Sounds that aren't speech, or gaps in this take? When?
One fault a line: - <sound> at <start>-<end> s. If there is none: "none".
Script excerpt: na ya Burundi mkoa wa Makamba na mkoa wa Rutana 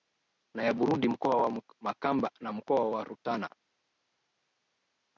none